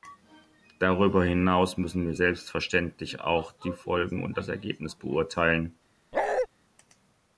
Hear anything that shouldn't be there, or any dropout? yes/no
yes